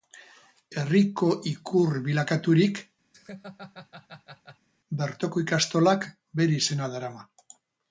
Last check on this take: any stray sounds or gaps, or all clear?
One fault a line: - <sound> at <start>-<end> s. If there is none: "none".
- laugh at 3.1-4.7 s